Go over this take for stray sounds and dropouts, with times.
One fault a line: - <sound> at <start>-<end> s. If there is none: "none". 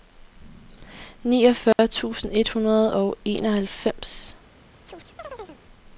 - dropout at 1.7-1.8 s
- chirp at 4.8-5.6 s